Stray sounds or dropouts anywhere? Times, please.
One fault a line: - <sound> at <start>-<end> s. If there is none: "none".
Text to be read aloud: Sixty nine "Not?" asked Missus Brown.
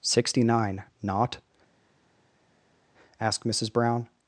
none